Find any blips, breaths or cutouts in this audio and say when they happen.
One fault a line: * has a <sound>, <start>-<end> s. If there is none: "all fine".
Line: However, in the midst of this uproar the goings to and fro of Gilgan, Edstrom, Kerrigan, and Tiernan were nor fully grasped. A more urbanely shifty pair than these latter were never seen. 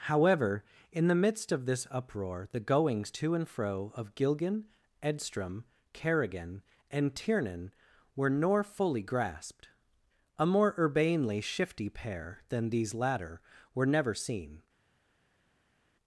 all fine